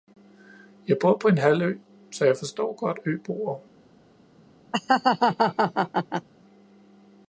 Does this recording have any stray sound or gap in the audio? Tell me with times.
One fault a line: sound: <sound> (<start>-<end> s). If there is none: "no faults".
sound: laugh (4.7-6.3 s)